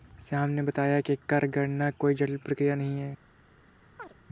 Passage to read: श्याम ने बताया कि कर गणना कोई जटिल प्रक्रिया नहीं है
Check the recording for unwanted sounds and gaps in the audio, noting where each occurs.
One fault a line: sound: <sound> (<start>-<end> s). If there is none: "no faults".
sound: chirp (4.0-4.1 s)